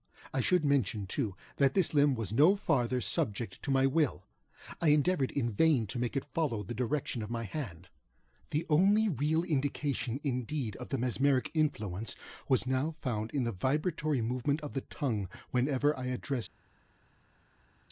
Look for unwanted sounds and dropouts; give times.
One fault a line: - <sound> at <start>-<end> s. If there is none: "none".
none